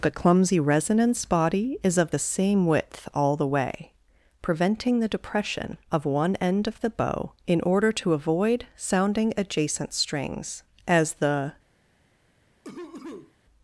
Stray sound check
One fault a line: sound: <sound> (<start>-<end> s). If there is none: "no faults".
sound: cough (12.6-13.4 s)